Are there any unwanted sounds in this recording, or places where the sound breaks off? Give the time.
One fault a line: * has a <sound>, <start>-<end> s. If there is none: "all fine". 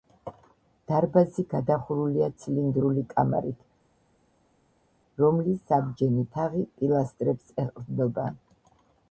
all fine